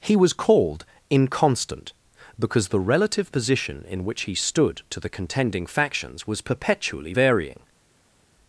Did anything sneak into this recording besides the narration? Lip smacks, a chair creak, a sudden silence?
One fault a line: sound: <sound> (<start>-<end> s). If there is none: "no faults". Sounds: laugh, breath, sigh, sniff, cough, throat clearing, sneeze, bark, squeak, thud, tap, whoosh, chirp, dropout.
no faults